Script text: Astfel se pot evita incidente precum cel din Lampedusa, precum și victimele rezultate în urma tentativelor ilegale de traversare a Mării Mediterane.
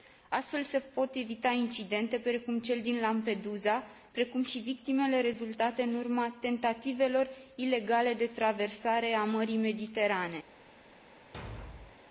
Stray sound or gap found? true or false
true